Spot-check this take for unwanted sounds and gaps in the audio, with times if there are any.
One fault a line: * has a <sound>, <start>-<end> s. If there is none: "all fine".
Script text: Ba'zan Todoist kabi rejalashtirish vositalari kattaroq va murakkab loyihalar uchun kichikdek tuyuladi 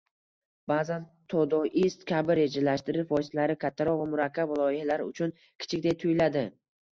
all fine